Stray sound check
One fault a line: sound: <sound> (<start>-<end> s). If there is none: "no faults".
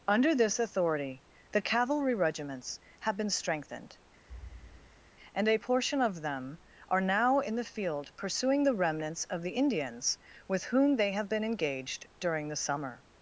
sound: thud (4.3-5.1 s)